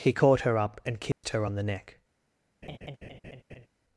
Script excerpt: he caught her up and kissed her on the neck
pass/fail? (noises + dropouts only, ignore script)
fail